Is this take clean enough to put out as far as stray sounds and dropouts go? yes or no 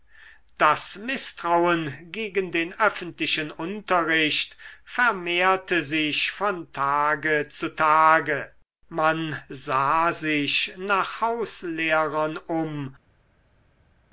yes